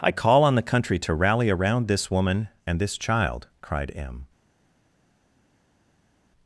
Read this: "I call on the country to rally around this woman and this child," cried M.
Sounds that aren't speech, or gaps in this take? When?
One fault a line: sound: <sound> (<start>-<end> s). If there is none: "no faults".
no faults